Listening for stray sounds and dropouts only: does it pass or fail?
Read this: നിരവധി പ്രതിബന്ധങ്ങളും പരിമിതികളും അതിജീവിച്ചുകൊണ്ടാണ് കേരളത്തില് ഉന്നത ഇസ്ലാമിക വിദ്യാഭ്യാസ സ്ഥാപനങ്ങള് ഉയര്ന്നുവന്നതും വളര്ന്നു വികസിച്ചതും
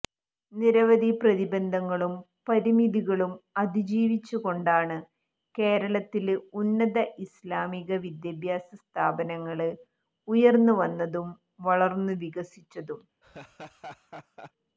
fail